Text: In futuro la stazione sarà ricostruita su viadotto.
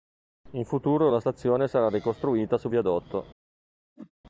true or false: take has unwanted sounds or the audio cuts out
true